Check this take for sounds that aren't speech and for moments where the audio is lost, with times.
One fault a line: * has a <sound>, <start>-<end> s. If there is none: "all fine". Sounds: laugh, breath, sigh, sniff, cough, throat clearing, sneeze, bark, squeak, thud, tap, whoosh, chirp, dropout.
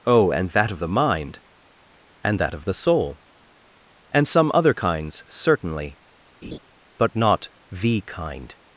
* has a laugh, 6.4-6.6 s